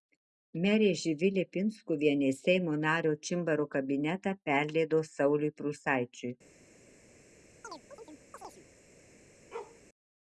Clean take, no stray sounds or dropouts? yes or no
no